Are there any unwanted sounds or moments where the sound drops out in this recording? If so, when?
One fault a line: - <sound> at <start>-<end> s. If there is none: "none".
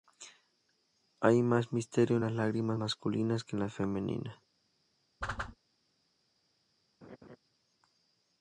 - whoosh at 5.2-5.6 s
- laugh at 7.0-7.4 s